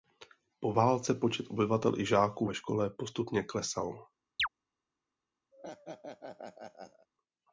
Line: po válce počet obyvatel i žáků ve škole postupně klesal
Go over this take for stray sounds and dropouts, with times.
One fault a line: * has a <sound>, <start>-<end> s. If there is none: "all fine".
* has a chirp, 4.4-4.5 s
* has a laugh, 5.5-7.1 s